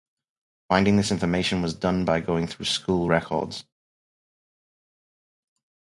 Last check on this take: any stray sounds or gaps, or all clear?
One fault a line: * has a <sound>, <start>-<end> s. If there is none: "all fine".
all fine